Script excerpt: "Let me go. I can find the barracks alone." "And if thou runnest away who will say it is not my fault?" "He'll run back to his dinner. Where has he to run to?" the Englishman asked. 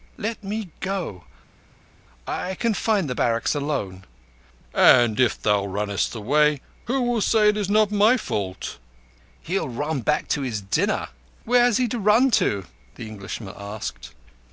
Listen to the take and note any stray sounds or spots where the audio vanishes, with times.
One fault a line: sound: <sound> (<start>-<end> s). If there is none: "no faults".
no faults